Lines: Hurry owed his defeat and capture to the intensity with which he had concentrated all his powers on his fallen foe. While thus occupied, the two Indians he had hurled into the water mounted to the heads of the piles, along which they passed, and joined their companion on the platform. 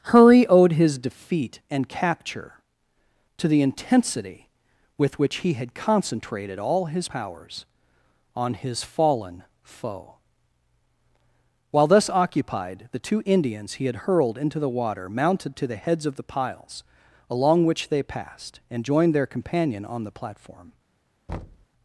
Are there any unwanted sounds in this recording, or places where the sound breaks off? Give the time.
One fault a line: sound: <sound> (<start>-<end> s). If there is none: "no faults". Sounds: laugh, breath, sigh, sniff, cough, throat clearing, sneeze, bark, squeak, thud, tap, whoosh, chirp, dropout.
sound: thud (21.3-21.7 s)